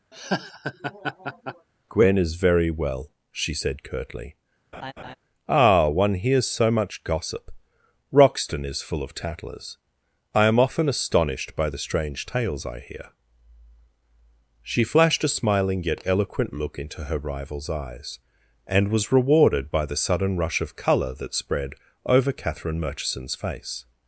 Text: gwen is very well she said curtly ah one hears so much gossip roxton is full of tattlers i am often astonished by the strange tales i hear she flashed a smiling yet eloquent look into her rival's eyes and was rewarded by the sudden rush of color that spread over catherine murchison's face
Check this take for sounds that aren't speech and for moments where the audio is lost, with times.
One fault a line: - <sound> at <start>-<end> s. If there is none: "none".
- laugh at 0.1-1.7 s
- laugh at 4.7-5.2 s